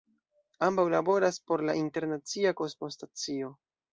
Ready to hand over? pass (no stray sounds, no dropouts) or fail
pass